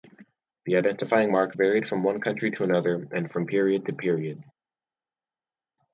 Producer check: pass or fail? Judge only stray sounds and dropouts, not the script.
pass